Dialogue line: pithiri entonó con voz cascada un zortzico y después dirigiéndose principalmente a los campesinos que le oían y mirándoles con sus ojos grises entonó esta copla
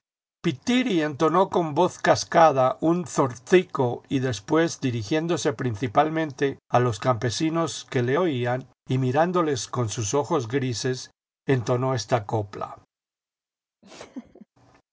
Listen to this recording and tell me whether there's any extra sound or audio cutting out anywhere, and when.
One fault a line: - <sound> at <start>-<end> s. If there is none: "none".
- laugh at 13.8-14.5 s